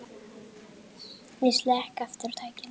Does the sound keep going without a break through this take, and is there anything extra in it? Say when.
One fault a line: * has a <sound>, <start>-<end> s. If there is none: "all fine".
all fine